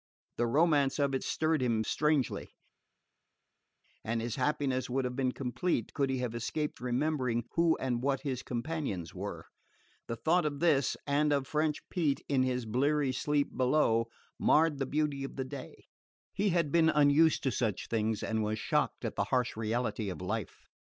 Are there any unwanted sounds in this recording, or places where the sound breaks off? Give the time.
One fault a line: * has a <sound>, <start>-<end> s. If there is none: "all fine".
all fine